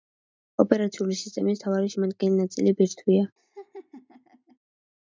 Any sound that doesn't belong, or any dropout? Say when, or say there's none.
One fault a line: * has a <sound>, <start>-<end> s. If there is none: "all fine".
* has a laugh, 3.4-4.6 s